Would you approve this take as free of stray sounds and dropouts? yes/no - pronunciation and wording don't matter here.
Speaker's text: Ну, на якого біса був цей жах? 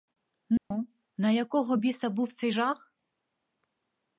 no